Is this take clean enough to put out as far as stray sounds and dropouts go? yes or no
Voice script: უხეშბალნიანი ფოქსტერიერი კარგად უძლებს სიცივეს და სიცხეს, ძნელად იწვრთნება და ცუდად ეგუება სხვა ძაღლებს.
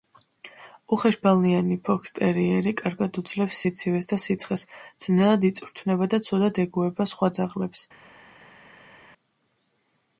yes